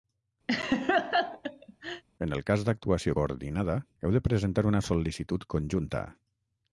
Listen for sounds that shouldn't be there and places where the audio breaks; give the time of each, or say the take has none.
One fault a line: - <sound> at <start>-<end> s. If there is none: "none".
- laugh at 0.5-2.0 s